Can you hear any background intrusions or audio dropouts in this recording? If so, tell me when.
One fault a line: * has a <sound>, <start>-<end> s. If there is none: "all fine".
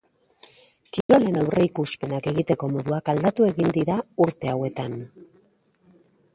* has a dropout, 1.0-1.1 s